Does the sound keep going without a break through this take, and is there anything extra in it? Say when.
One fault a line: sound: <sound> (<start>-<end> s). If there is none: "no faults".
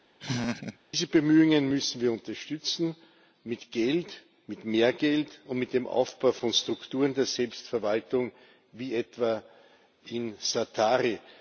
sound: laugh (0.2-0.8 s)